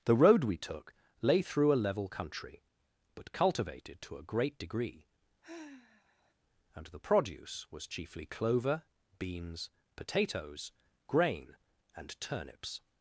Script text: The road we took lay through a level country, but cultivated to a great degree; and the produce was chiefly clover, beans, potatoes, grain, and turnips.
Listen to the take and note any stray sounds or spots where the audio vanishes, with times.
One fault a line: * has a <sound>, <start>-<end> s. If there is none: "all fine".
* has a sigh, 5.4-6.3 s